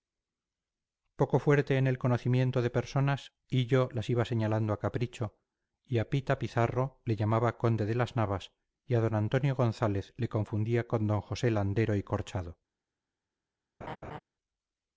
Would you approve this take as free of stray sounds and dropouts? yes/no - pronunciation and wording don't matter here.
no